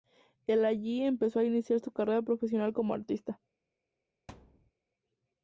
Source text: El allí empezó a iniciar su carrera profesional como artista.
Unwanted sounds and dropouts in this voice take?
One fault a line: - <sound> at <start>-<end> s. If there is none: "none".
- thud at 4.3-4.7 s